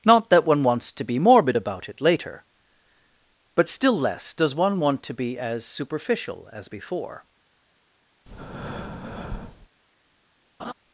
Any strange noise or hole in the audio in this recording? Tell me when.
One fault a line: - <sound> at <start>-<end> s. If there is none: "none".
- breath at 8.3-9.7 s
- laugh at 10.6-10.7 s